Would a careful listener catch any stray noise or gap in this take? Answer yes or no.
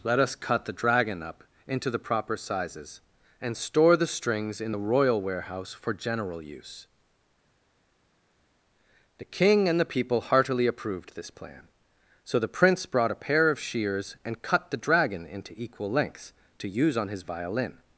no